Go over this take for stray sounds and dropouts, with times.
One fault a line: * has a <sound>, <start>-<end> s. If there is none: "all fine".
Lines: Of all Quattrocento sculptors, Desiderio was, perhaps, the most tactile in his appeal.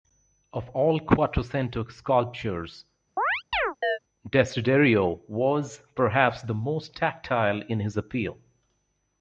* has a chirp, 3.2-4.0 s